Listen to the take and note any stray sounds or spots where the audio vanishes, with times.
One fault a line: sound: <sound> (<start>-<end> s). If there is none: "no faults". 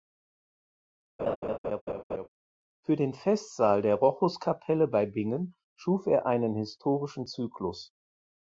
sound: laugh (1.2-2.3 s)